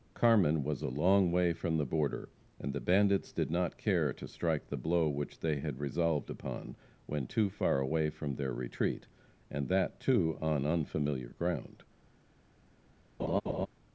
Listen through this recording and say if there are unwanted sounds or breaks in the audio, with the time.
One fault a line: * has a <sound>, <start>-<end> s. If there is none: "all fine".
* has a laugh, 13.2-13.7 s